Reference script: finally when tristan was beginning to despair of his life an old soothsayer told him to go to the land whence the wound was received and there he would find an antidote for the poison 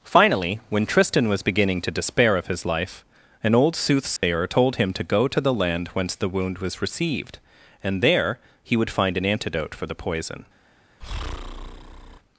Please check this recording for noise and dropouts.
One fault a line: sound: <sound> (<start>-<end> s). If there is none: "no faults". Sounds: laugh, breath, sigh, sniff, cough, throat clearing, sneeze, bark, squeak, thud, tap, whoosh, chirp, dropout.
sound: dropout (4.2-4.2 s)
sound: breath (11.0-12.2 s)